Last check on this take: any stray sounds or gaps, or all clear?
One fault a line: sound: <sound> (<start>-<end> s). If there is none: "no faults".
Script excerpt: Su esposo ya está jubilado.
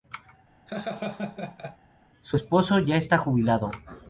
sound: laugh (0.7-1.8 s)